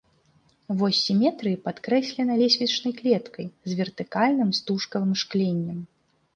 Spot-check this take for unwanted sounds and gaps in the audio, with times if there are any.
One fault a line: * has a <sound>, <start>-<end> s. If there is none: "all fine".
all fine